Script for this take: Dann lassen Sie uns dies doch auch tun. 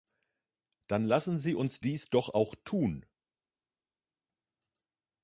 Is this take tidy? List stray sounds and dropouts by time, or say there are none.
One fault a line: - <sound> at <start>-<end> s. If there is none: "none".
none